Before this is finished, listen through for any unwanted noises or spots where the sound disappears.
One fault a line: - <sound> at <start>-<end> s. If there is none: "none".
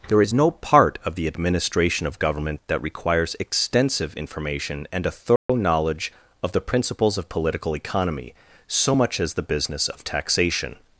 - dropout at 5.4-5.5 s